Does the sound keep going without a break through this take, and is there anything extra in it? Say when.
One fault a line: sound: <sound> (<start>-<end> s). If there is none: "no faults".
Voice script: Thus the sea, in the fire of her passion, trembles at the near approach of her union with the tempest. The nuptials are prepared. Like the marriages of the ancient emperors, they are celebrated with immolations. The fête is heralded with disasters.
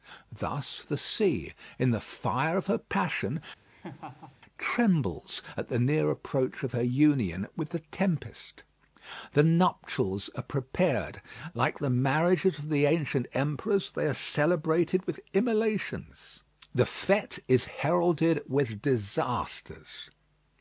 sound: laugh (3.6-4.4 s)